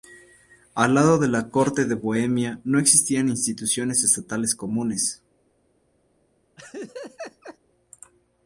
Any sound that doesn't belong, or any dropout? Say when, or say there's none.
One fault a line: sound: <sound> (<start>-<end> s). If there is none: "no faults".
sound: laugh (6.6-7.6 s)